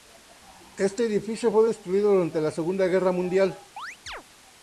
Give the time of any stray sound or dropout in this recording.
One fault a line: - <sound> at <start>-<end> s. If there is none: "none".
- chirp at 3.8-4.2 s